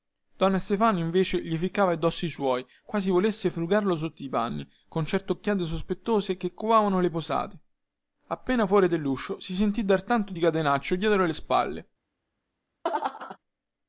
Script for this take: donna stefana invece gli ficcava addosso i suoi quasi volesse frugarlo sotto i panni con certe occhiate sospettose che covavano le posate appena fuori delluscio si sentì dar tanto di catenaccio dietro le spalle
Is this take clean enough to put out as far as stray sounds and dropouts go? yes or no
no